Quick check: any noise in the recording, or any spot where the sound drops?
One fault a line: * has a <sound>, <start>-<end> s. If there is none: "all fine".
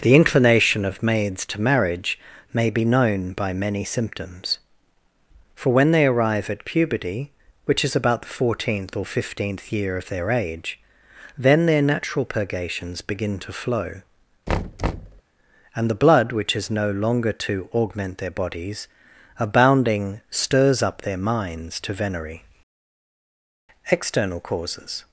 * has a thud, 14.5-15.2 s